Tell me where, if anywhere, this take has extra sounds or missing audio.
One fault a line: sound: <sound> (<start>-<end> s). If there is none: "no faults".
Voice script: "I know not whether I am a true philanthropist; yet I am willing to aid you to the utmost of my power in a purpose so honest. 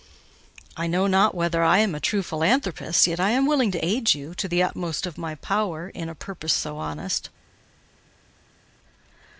no faults